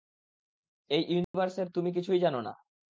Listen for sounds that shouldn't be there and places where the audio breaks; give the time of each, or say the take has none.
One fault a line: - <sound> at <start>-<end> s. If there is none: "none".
- dropout at 1.2-1.3 s